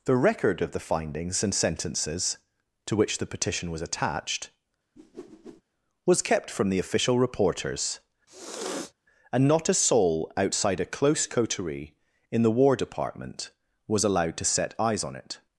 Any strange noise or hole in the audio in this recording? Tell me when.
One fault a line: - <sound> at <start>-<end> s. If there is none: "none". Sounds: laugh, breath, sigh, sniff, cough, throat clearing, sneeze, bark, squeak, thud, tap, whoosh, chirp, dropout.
- whoosh at 5.0-5.6 s
- sniff at 8.3-8.9 s